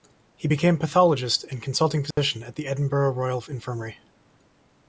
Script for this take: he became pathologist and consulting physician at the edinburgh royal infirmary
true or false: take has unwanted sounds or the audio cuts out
true